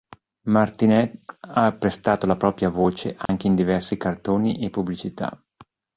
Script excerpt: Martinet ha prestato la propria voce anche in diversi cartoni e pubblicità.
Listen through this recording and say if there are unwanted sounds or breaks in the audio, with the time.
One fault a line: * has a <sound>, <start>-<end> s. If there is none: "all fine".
* has a dropout, 3.3-3.3 s